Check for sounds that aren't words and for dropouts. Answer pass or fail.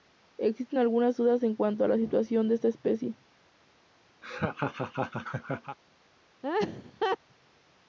fail